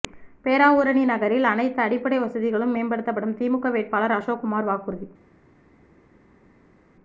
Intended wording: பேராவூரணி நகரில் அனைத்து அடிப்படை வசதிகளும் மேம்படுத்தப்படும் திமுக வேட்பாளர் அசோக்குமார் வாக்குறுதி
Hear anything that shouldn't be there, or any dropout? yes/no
no